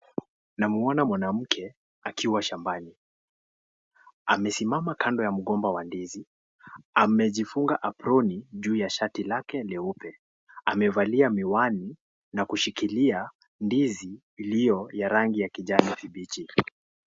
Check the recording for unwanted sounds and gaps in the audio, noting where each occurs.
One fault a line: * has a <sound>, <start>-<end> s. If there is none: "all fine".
all fine